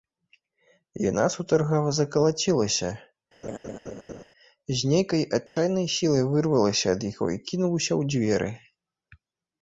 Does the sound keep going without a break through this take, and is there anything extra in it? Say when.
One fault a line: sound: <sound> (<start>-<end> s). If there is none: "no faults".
sound: laugh (3.4-4.2 s)
sound: dropout (5.5-5.6 s)